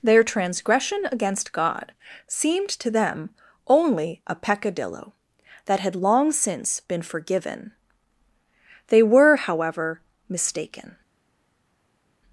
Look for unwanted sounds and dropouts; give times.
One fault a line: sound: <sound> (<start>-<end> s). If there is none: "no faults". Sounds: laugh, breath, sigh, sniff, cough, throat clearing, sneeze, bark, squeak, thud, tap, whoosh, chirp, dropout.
no faults